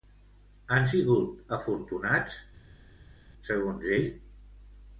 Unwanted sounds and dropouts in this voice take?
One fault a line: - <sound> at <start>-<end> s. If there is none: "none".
none